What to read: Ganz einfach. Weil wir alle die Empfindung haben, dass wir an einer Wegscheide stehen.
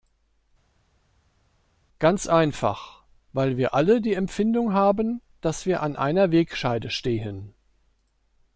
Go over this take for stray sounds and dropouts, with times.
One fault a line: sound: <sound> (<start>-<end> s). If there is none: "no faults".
no faults